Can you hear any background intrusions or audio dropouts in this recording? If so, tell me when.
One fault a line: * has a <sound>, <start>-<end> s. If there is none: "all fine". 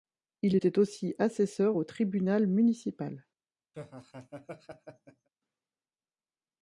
* has a laugh, 3.7-5.3 s